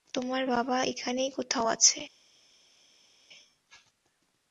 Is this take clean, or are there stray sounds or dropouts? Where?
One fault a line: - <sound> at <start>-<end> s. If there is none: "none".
none